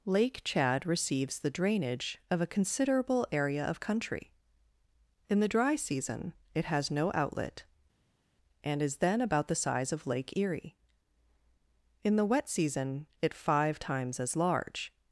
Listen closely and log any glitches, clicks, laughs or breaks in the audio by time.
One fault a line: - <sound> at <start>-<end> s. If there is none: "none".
none